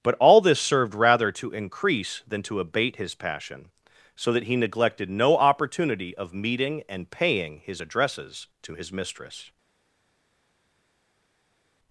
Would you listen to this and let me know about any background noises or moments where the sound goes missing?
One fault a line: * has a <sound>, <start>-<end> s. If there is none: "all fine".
all fine